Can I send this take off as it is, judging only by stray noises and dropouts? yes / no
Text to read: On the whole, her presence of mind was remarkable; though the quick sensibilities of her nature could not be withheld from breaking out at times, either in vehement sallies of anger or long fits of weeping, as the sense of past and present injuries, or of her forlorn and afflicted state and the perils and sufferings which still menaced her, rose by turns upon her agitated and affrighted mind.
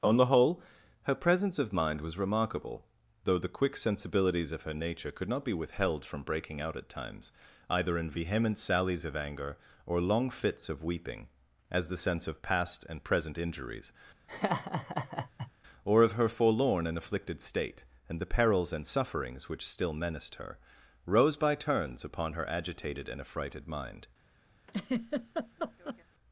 no